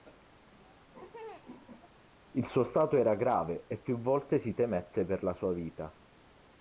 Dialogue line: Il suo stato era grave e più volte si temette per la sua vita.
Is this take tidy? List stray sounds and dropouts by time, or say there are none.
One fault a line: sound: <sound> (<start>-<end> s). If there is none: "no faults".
sound: laugh (0.5-2.0 s)